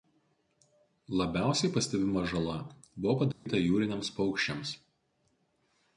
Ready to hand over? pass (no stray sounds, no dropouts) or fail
fail